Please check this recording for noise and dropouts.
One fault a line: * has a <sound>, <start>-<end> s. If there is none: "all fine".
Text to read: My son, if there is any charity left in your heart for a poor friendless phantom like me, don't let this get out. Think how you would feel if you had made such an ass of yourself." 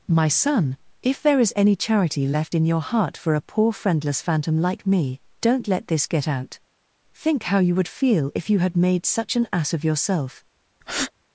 * has a breath, 10.8-11.1 s